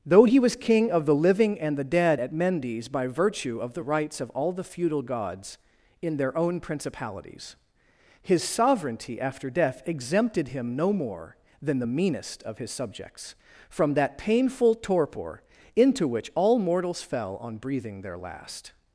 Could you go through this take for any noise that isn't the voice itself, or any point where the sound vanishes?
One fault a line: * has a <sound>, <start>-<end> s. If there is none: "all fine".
all fine